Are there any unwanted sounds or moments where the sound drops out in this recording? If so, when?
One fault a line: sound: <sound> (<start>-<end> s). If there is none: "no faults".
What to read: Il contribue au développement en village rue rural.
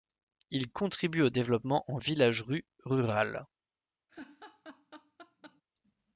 sound: laugh (4.1-5.6 s)